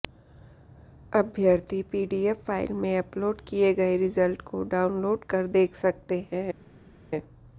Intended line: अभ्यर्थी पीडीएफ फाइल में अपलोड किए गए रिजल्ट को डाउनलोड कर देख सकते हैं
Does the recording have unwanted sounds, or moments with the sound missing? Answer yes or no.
no